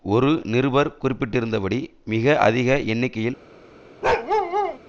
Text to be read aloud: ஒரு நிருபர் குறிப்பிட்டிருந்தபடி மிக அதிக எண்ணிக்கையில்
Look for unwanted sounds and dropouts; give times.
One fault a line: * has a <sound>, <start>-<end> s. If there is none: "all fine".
* has a bark, 4.0-4.8 s